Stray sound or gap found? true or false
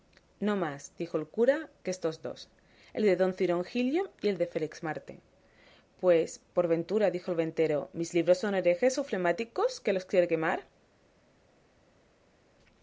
false